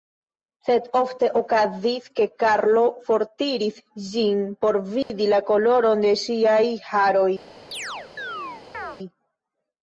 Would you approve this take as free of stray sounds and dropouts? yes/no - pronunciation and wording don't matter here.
no